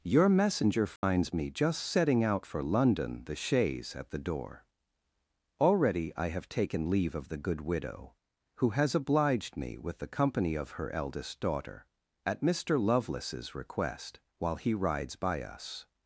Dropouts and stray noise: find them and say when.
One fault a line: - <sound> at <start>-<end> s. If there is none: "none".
- dropout at 1.0-1.0 s